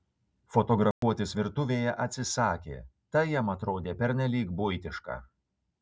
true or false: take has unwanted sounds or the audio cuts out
true